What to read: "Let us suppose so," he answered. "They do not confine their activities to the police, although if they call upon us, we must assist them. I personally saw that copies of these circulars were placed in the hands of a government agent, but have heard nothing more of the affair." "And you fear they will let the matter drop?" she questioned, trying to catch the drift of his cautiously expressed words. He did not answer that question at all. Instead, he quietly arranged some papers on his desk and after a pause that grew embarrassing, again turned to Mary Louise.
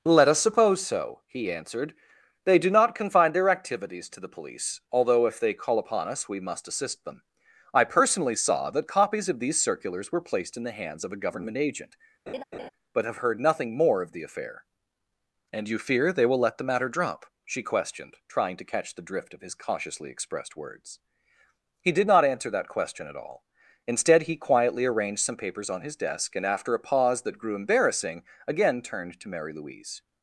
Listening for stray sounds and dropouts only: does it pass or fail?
fail